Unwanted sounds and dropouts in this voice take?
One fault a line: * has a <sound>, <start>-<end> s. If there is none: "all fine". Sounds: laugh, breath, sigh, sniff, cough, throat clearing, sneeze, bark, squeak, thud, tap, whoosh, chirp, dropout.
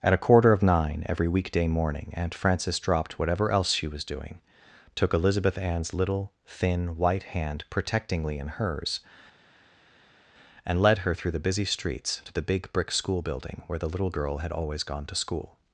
all fine